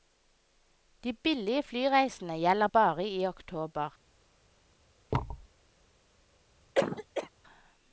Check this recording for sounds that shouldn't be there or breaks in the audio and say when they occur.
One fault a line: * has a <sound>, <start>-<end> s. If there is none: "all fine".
* has a thud, 5.1-5.5 s
* has a cough, 6.7-7.3 s